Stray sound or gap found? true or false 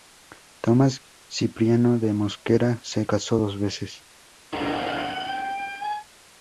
true